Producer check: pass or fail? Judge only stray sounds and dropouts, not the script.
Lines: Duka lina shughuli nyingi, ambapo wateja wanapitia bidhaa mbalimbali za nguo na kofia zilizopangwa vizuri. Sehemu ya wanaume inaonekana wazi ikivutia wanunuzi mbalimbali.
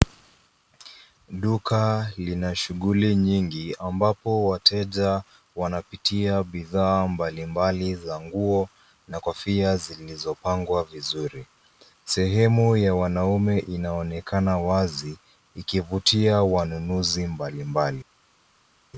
pass